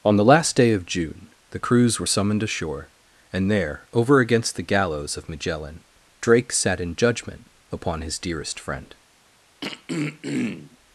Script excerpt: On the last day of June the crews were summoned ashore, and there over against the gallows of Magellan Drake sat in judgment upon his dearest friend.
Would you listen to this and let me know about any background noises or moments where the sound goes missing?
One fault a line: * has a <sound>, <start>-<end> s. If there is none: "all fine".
* has a throat clearing, 9.6-10.8 s